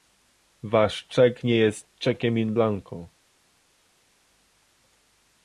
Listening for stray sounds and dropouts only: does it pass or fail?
pass